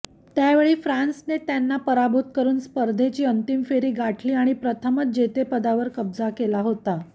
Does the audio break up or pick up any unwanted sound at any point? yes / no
no